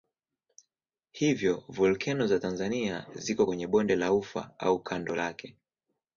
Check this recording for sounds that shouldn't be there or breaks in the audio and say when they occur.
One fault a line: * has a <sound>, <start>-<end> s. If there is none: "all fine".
all fine